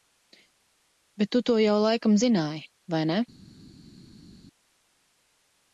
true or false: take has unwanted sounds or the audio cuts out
false